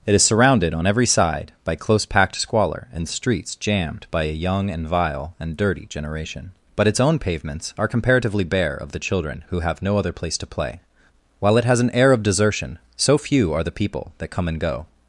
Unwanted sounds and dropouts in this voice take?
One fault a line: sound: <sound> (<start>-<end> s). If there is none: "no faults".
no faults